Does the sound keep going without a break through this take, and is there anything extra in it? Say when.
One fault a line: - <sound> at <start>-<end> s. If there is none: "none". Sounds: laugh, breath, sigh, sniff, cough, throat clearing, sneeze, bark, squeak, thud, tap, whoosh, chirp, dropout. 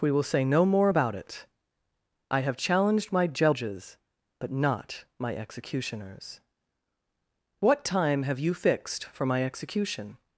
none